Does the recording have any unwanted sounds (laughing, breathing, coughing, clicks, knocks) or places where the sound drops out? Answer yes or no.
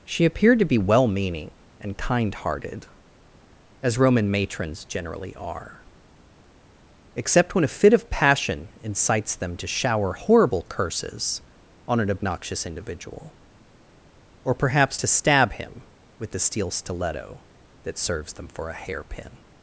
no